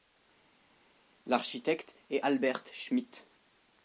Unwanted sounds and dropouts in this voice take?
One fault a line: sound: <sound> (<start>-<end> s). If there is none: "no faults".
no faults